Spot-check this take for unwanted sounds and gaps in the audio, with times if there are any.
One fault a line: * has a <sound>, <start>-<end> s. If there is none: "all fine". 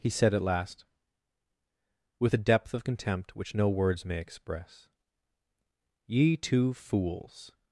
all fine